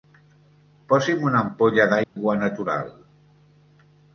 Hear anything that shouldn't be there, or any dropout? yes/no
yes